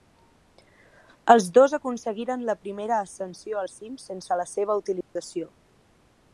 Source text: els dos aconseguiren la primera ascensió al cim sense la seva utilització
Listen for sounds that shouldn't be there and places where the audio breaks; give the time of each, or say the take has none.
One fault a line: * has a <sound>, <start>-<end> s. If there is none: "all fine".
* has a dropout, 5.0-5.2 s